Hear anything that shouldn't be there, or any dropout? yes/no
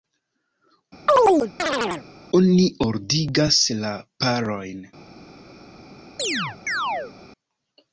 yes